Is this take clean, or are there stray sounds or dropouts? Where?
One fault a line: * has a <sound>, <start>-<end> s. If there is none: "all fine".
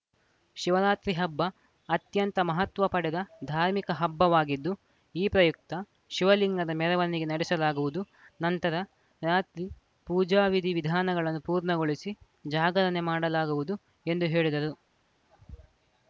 all fine